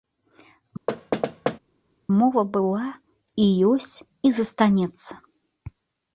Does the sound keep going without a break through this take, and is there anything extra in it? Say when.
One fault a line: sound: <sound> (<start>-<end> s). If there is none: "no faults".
sound: thud (0.9-1.6 s)